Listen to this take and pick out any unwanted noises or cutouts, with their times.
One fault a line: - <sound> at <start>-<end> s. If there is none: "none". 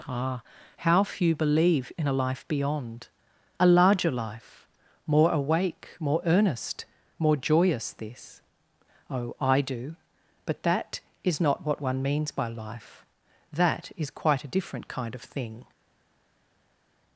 none